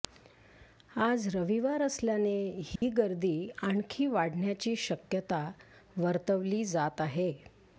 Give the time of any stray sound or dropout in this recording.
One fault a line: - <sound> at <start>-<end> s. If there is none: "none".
- dropout at 2.8-2.8 s